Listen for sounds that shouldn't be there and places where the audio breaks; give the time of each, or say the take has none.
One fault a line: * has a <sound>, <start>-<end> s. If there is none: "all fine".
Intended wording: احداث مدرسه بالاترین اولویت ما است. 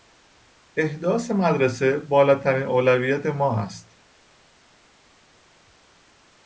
all fine